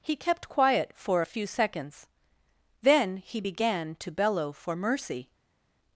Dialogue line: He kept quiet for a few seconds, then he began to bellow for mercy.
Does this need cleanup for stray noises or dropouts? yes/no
no